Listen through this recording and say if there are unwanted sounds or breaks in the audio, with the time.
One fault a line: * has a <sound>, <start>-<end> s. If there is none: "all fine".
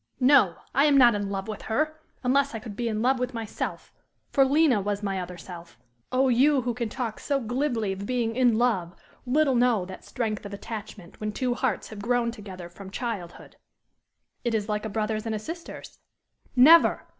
all fine